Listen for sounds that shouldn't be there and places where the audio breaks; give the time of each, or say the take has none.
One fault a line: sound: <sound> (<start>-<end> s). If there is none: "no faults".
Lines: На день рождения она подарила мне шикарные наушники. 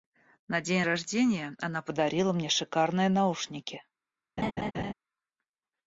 sound: laugh (4.4-4.9 s)